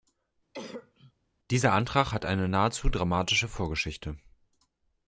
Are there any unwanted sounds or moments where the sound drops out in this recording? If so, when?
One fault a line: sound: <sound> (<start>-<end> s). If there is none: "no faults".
sound: cough (0.5-1.1 s)